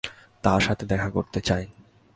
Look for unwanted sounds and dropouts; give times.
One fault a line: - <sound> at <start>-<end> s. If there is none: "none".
none